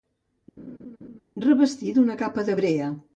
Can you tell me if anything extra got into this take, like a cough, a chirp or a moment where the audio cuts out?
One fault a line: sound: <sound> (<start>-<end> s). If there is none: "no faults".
sound: laugh (0.6-1.2 s)